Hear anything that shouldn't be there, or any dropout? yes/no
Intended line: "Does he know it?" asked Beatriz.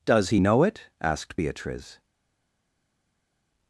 no